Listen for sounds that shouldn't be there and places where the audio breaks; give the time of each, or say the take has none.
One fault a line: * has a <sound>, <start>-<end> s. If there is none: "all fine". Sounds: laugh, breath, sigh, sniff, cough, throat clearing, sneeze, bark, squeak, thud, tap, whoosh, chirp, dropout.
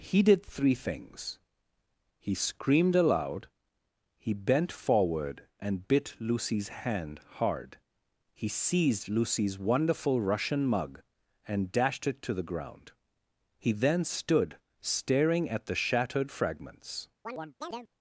* has a chirp, 17.2-17.9 s